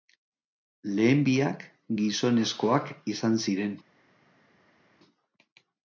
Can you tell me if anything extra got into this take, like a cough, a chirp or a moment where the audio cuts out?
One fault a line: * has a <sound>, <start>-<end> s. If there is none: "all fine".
all fine